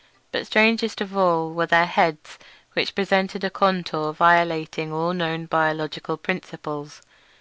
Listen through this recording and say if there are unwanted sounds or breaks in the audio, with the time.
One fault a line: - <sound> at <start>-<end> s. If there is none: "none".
none